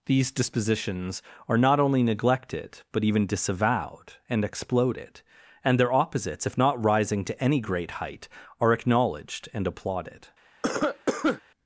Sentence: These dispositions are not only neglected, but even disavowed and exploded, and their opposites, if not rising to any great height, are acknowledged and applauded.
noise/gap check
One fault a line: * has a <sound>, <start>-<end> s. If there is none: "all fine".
* has a cough, 10.6-11.4 s